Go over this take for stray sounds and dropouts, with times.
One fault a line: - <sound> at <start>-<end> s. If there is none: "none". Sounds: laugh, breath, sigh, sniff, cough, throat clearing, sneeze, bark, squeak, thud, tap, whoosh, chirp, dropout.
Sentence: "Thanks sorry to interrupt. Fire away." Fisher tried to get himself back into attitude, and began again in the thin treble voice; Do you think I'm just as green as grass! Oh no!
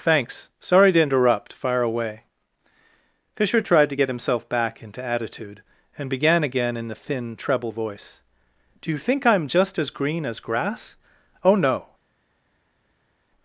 none